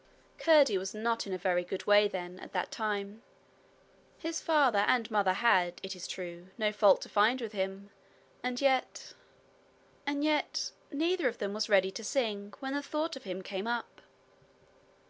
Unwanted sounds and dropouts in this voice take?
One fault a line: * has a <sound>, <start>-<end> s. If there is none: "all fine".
all fine